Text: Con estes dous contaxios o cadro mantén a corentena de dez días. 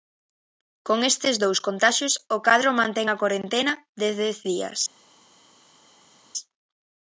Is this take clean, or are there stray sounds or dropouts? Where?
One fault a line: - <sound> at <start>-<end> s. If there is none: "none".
none